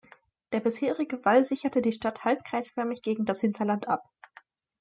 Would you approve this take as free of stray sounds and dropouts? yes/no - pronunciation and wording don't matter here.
yes